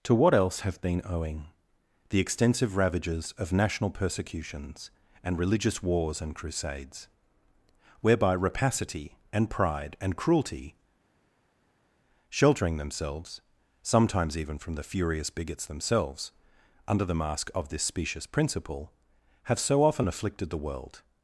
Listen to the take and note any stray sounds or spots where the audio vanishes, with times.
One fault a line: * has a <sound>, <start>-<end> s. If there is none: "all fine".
all fine